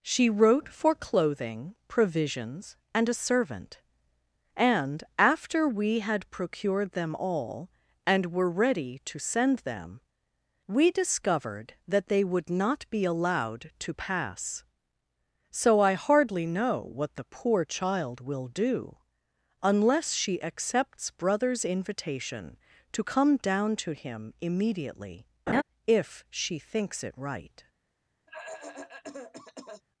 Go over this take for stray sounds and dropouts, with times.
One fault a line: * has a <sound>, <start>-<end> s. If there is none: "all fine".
* has a laugh, 25.5-25.6 s
* has a cough, 28.3-29.8 s